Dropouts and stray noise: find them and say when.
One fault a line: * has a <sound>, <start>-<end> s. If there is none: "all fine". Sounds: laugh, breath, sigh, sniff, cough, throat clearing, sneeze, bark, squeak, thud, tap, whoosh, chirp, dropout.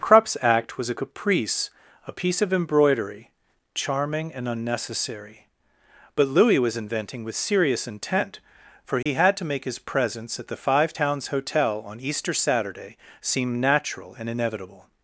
* has a dropout, 9.0-9.1 s